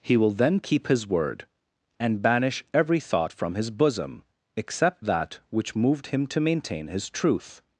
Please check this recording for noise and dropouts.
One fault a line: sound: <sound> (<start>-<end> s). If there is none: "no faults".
no faults